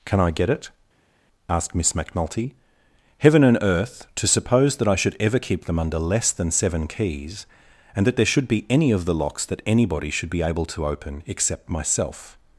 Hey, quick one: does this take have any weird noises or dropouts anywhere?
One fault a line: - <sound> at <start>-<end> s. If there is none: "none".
none